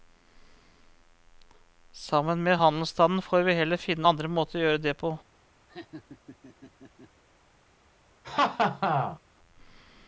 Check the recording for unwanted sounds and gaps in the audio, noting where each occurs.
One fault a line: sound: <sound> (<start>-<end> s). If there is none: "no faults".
sound: laugh (5.7-7.2 s)
sound: laugh (8.2-9.2 s)